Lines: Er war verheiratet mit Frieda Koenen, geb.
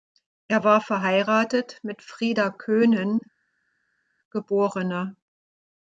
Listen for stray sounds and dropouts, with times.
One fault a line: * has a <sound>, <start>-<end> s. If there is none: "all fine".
all fine